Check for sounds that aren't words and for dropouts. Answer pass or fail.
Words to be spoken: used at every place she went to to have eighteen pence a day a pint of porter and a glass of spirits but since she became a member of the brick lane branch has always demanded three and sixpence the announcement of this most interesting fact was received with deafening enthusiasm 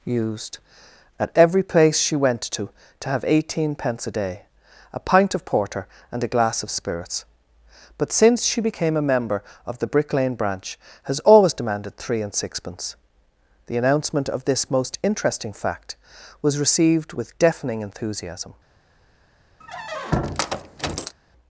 fail